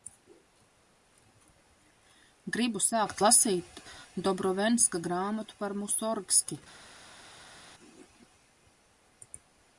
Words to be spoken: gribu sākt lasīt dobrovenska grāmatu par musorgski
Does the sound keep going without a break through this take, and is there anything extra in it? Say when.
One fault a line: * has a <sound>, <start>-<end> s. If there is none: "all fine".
all fine